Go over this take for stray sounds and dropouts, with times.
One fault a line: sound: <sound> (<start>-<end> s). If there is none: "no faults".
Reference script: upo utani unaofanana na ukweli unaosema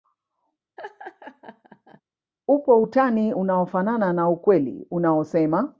sound: laugh (0.8-2.0 s)